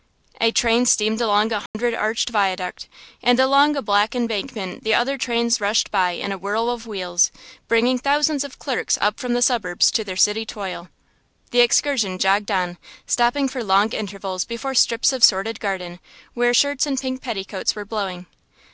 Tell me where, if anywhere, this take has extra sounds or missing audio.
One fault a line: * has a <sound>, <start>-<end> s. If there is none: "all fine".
* has a dropout, 1.7-1.7 s